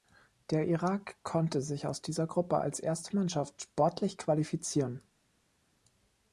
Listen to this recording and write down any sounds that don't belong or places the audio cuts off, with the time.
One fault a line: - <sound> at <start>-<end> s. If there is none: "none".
none